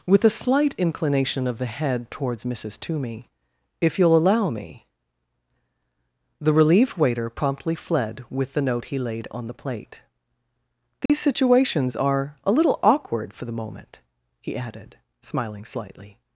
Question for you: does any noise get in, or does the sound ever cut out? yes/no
yes